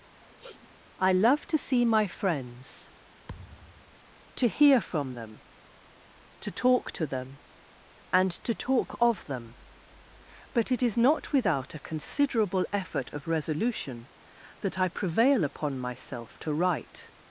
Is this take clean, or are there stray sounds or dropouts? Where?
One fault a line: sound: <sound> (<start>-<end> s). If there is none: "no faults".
sound: sniff (0.2-0.8 s)
sound: thud (3.3-4.0 s)